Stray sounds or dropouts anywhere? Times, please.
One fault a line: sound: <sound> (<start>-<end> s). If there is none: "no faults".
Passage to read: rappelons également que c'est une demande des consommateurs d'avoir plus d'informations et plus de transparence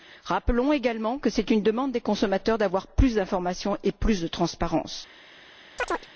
sound: chirp (5.8-6.1 s)